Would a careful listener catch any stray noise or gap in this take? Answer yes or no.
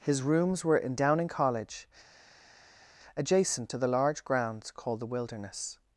no